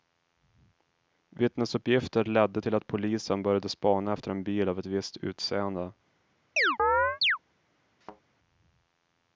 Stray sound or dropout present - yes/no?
yes